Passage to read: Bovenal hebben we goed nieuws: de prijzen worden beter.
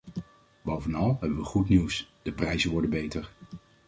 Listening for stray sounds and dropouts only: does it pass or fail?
pass